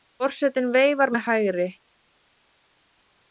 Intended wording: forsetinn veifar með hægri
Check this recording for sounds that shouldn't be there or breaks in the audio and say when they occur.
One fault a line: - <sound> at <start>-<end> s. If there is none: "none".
none